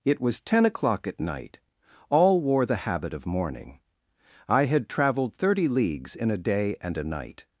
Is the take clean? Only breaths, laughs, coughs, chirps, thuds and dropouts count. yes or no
yes